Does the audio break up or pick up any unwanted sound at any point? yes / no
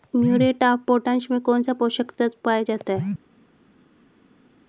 no